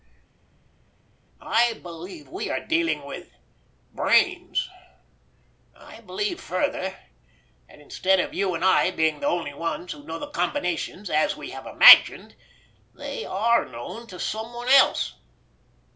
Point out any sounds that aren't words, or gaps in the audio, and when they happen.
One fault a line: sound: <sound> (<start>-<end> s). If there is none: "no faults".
no faults